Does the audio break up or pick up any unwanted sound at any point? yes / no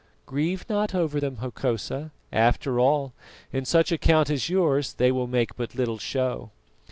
no